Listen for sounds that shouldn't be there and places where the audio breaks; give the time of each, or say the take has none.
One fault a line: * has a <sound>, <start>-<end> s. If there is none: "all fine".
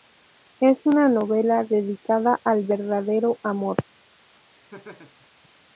* has a laugh, 4.7-5.3 s